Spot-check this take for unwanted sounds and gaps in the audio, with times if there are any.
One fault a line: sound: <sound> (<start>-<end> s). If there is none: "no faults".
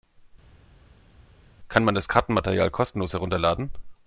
no faults